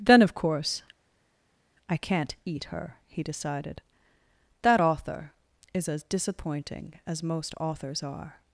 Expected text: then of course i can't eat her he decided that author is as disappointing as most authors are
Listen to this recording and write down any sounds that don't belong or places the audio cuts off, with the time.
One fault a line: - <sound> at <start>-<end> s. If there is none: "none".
none